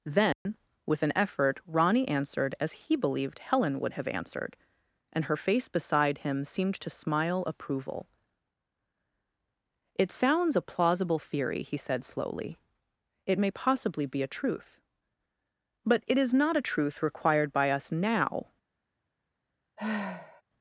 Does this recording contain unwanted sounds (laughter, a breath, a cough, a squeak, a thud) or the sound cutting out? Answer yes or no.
yes